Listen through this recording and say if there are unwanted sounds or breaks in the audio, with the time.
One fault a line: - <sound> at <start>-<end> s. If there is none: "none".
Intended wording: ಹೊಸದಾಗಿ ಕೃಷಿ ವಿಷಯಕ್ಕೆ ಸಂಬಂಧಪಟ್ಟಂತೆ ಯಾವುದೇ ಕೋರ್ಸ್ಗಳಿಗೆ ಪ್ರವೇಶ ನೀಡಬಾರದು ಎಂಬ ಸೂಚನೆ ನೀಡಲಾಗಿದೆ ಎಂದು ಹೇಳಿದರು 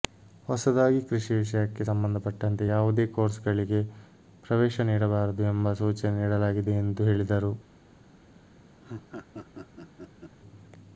- laugh at 8.8-10.4 s